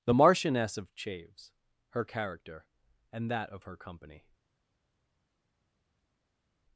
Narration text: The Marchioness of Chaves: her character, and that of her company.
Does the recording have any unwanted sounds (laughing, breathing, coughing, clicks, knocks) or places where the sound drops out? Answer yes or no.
no